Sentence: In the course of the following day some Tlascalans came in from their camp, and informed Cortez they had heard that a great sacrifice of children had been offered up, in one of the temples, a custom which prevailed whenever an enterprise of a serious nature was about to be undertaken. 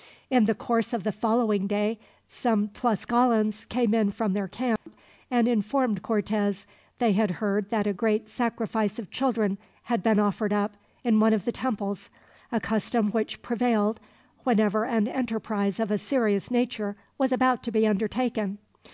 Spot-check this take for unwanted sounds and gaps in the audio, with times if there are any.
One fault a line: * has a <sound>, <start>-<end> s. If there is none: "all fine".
* has a dropout, 4.8-4.9 s